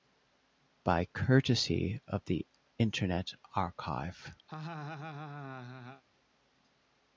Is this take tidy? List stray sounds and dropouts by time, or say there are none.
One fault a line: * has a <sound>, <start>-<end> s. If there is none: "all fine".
* has a laugh, 4.5-6.0 s